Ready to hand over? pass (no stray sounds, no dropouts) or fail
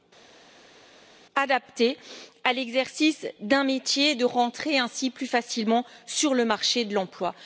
pass